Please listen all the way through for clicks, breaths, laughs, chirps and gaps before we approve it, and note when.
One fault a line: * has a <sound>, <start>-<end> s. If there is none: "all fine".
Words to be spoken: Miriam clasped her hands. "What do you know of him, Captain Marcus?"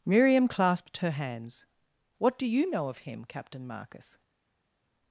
all fine